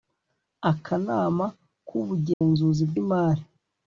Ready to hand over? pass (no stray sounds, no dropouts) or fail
fail